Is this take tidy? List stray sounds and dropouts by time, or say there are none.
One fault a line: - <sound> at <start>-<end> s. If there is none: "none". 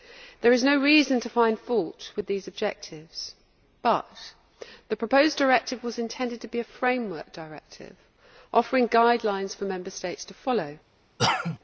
- cough at 11.2-11.6 s